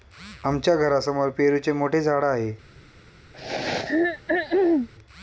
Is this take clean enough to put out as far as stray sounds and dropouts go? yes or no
no